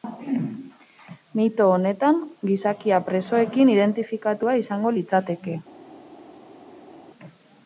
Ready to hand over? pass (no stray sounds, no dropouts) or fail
pass